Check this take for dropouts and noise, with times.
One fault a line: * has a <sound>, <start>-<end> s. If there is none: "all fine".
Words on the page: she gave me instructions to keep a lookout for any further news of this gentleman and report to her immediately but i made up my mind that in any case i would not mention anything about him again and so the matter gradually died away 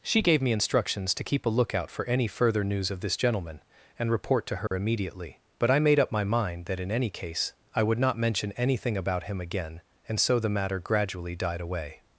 * has a dropout, 4.7-4.7 s